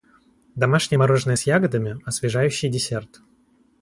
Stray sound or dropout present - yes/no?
no